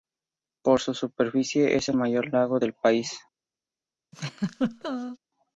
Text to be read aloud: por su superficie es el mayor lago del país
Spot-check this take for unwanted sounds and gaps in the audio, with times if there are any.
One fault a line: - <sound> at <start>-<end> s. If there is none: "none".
- laugh at 4.1-5.2 s